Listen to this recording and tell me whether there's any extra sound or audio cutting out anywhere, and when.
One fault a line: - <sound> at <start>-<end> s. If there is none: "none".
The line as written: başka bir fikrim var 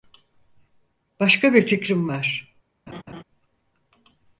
- laugh at 2.9-3.2 s